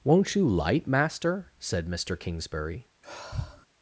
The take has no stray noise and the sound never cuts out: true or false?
false